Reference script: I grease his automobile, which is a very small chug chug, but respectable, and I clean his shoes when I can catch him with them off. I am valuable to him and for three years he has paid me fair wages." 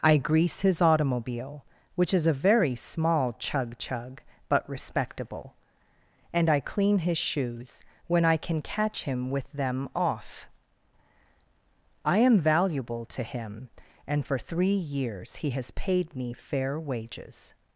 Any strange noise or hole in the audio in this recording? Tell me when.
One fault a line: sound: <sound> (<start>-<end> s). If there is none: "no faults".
no faults